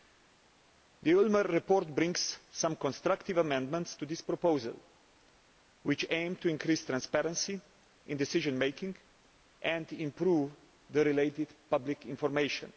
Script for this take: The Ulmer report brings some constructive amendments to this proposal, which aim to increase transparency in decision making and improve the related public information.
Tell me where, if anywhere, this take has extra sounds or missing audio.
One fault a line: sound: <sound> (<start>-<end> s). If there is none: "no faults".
no faults